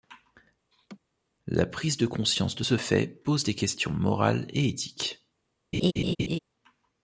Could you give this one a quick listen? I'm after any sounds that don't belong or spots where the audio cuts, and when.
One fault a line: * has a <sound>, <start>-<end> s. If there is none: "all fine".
* has a laugh, 0.7-1.0 s
* has a laugh, 5.7-6.4 s